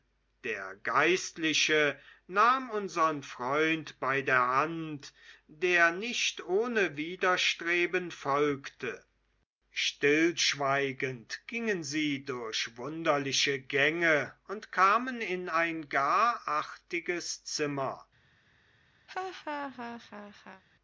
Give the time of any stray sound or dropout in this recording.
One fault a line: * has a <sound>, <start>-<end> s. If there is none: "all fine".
* has a laugh, 19.1-20.6 s